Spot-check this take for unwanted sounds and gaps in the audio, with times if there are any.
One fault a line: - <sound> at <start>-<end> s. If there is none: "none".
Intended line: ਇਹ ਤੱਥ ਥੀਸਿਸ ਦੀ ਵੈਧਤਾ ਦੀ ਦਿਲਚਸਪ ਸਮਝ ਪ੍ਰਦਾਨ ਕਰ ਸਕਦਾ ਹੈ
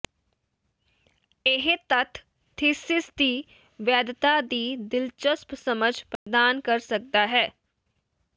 - dropout at 6.2-6.3 s